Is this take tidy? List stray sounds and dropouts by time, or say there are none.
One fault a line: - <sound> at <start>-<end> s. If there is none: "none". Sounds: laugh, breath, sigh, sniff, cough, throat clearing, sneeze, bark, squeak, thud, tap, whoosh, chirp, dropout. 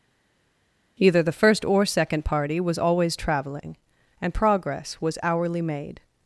none